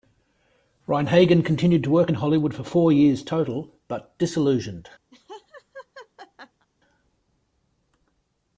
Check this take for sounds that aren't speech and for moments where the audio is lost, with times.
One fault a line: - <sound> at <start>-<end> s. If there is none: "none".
- laugh at 5.1-6.7 s